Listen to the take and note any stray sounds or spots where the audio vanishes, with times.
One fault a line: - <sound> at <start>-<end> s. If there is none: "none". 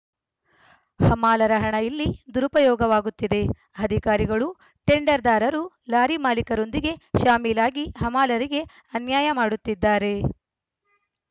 none